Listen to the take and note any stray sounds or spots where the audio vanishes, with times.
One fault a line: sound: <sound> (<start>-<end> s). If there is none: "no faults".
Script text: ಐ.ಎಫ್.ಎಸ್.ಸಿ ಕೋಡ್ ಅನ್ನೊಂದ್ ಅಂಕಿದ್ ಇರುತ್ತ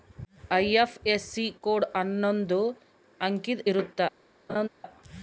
sound: laugh (4.5-4.7 s)